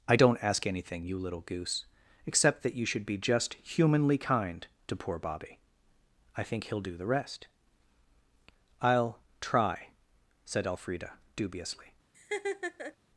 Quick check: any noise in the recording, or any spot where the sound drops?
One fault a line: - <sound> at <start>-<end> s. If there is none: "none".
- laugh at 12.1-13.0 s